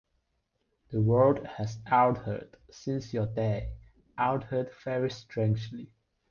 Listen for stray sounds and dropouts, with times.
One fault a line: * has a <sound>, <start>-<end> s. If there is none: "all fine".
all fine